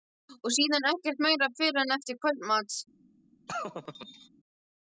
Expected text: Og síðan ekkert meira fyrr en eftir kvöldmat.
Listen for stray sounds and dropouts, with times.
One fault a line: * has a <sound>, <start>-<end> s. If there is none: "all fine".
* has a laugh, 3.5-4.3 s